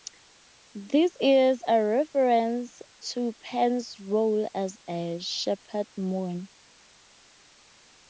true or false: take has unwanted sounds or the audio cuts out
false